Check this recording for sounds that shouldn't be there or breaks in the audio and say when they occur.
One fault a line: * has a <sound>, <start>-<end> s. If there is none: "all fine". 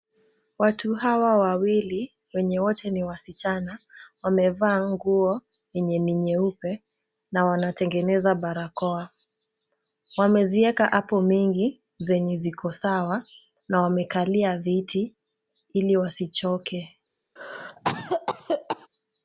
* has a cough, 17.4-18.9 s